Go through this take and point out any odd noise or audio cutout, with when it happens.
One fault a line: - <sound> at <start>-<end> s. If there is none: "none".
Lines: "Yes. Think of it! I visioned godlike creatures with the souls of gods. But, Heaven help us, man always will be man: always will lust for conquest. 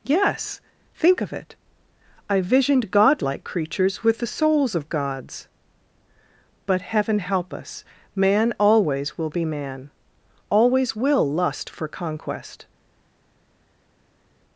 none